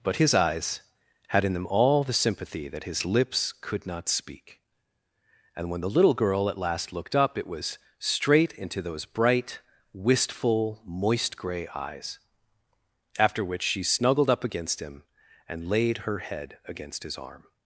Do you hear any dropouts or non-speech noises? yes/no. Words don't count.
no